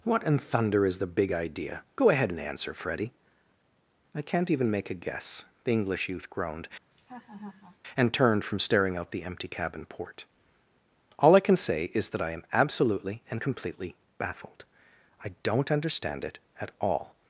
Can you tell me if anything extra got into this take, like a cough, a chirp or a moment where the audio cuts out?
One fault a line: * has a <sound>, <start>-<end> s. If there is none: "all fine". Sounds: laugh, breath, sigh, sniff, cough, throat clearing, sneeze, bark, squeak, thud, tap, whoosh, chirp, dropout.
* has a laugh, 6.9-7.8 s